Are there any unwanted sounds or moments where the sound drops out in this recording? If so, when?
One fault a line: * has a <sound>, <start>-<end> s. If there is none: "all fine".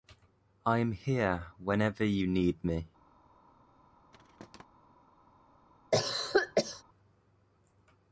* has a thud, 4.1-4.7 s
* has a cough, 5.9-6.8 s